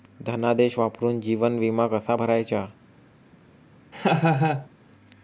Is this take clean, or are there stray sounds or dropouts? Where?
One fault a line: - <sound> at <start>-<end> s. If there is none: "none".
- laugh at 3.9-4.7 s